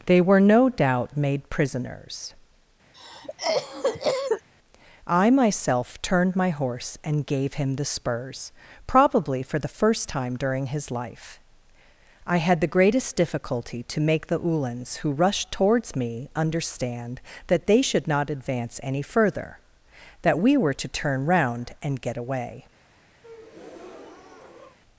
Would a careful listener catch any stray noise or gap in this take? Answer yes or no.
yes